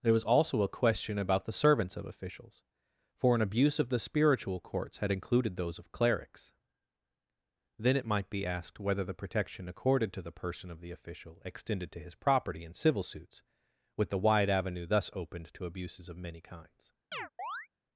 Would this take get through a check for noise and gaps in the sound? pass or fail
fail